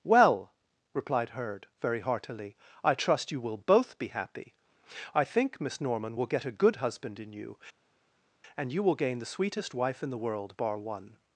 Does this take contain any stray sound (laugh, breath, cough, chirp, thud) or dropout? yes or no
no